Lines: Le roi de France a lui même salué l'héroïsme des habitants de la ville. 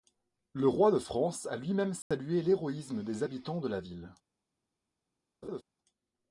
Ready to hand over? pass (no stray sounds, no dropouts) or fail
fail